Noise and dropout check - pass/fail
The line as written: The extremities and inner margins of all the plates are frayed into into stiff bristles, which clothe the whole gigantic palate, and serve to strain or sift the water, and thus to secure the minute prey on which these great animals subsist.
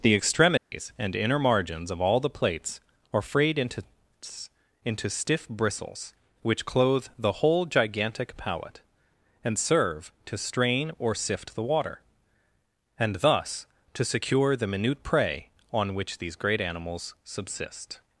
fail